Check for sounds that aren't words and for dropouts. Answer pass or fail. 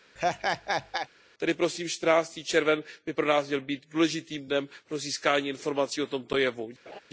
fail